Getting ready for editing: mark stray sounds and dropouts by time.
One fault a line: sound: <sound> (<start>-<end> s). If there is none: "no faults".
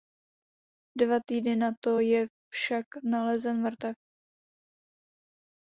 no faults